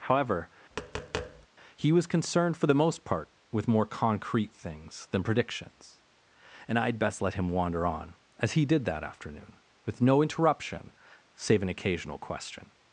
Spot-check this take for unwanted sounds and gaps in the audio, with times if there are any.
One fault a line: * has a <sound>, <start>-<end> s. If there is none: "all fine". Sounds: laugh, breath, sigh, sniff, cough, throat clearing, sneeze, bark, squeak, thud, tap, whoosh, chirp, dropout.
* has a tap, 0.7-1.5 s